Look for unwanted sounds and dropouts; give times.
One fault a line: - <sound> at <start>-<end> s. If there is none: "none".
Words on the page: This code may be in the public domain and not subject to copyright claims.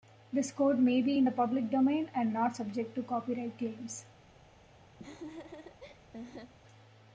- laugh at 5.0-6.5 s